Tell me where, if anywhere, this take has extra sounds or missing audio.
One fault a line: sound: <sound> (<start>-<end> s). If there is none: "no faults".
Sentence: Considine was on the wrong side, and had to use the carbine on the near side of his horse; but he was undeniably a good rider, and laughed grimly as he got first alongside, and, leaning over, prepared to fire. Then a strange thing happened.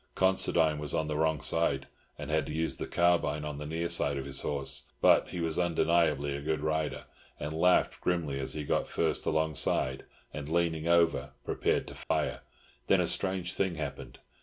sound: dropout (12.0-12.1 s)